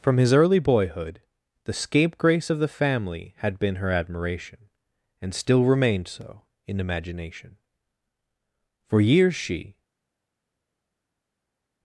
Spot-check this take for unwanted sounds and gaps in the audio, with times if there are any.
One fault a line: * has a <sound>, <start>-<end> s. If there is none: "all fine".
all fine